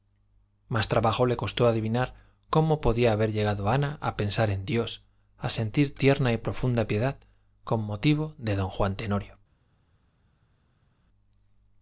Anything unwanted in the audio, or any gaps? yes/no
no